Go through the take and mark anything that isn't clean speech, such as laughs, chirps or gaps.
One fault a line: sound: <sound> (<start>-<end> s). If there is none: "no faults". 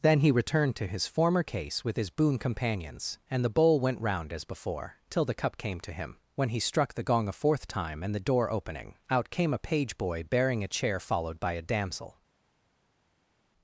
no faults